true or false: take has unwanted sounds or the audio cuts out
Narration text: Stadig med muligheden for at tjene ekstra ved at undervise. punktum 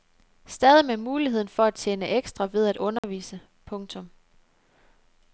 true